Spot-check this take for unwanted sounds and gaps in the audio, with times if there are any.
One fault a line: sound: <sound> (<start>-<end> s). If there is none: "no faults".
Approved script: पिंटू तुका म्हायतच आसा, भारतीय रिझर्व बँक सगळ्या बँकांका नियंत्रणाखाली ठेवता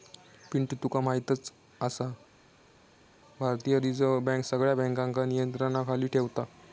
no faults